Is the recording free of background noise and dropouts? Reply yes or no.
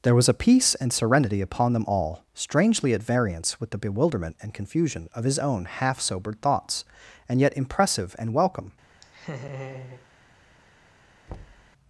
no